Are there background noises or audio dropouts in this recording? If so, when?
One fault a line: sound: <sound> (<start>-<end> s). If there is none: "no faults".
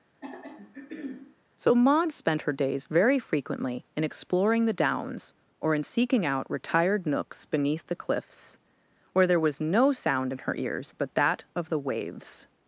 sound: throat clearing (0.2-1.4 s)